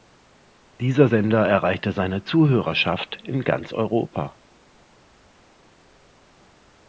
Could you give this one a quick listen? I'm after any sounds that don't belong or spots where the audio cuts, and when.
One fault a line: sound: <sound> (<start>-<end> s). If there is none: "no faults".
no faults